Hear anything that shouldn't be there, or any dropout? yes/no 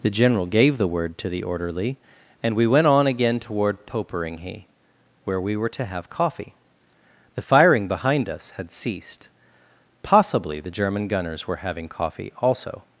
no